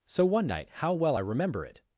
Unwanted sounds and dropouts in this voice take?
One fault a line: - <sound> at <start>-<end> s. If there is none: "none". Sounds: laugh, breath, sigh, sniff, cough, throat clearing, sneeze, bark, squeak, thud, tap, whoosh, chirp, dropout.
none